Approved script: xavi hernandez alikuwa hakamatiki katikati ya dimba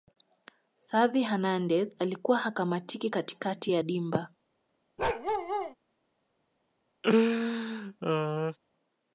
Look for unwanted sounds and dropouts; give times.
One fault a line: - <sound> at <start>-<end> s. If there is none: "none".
- bark at 5.0-5.8 s
- laugh at 7.0-8.6 s